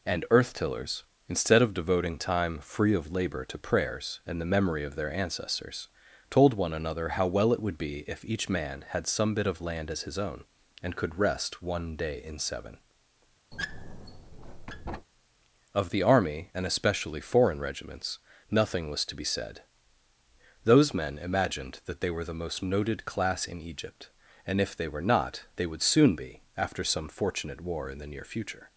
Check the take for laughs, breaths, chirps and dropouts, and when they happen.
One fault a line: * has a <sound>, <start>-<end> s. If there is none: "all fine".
* has a squeak, 13.5-15.1 s